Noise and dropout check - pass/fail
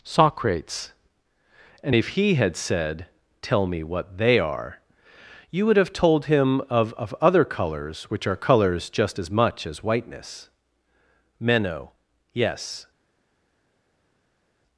pass